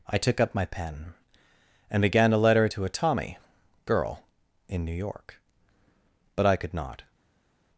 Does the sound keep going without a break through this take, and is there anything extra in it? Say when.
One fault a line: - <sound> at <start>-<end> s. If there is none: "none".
none